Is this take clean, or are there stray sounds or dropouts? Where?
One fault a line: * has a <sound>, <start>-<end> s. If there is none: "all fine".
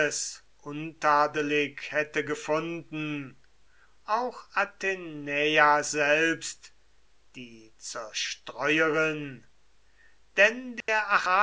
* has a dropout, 10.8-10.9 s